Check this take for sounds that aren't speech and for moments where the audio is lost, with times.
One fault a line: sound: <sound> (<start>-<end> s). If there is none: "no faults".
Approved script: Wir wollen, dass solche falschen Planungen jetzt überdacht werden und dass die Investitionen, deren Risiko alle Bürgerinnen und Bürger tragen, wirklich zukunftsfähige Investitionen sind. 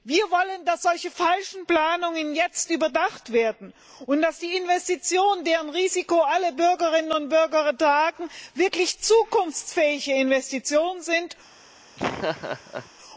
sound: laugh (12.0-12.9 s)